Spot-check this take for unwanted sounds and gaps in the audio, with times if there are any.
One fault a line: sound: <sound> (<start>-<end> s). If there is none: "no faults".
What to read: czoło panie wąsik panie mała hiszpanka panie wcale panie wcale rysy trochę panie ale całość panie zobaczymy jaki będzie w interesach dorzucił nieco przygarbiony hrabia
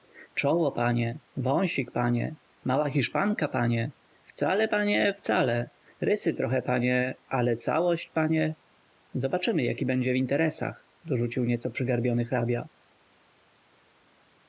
no faults